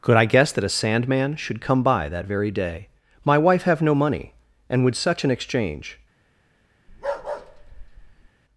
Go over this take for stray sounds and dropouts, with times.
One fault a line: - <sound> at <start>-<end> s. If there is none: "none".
- bark at 6.9-8.3 s